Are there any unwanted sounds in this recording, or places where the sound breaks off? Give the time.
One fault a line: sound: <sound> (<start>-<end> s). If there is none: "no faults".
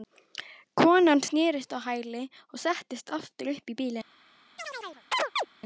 sound: chirp (4.6-5.5 s)